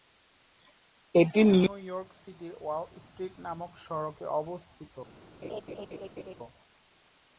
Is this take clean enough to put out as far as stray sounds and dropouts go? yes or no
no